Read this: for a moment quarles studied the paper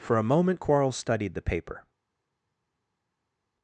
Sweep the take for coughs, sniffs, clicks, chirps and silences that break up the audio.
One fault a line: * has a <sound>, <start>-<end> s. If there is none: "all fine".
all fine